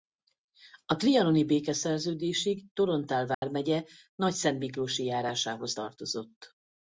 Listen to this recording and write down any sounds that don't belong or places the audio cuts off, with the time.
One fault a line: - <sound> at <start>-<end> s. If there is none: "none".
- dropout at 3.3-3.4 s